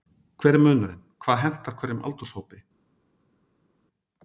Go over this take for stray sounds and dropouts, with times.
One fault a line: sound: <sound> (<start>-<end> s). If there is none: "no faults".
no faults